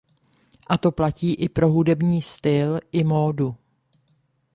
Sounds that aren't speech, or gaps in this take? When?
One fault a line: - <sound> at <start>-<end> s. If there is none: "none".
none